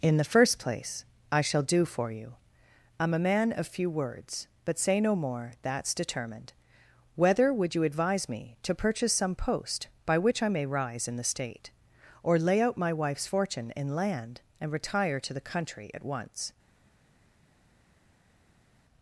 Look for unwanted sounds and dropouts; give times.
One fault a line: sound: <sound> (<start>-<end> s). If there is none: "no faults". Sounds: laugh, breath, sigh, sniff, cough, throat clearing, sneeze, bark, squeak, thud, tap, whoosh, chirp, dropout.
no faults